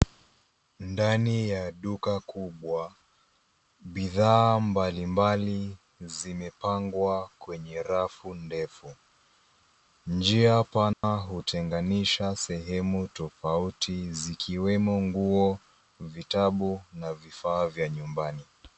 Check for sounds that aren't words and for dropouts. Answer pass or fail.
fail